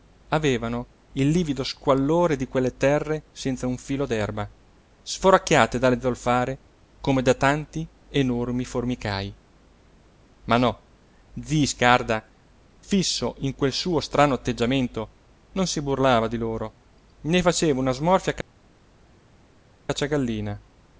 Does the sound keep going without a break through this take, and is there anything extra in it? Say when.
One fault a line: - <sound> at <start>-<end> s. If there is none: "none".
none